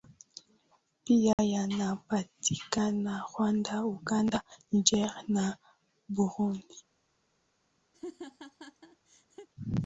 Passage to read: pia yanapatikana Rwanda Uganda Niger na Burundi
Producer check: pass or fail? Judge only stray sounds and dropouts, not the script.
fail